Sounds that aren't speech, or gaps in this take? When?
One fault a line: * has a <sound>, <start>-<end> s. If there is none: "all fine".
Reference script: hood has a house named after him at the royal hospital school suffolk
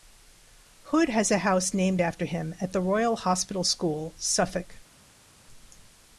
all fine